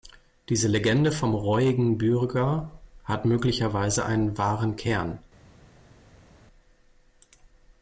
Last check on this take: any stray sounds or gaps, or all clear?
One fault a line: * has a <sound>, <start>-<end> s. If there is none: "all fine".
all fine